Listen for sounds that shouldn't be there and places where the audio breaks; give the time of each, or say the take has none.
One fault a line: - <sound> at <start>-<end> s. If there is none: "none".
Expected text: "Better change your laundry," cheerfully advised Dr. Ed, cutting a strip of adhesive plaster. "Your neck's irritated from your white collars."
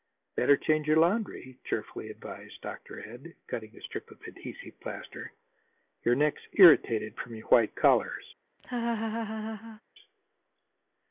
- laugh at 8.6-9.8 s